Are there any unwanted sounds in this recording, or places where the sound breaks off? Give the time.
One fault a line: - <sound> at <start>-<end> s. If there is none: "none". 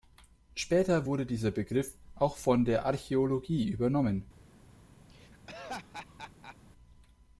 - laugh at 5.1-6.6 s